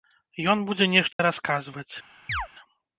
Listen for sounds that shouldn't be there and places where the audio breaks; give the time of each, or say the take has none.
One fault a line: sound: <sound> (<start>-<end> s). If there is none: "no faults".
sound: dropout (1.1-1.2 s)
sound: chirp (2.3-2.5 s)